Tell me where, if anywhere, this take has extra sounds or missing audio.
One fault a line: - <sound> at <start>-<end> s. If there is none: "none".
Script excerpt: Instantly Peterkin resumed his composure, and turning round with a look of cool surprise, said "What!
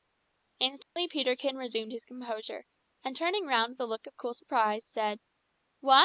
- dropout at 0.8-1.0 s